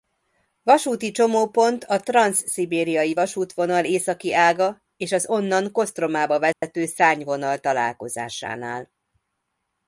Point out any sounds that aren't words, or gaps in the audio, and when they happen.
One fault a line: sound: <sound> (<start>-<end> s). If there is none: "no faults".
sound: dropout (6.5-6.6 s)